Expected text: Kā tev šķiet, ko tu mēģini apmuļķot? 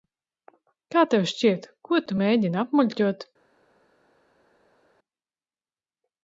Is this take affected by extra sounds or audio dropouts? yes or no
no